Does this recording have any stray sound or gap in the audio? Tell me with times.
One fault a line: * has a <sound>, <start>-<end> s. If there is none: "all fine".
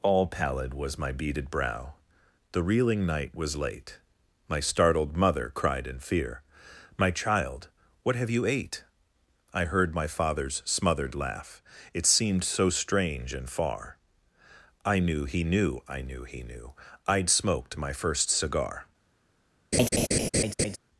* has a laugh, 19.7-20.8 s